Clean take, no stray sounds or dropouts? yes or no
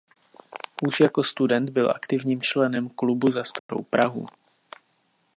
no